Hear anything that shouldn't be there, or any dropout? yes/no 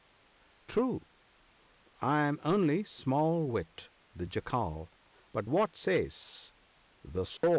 yes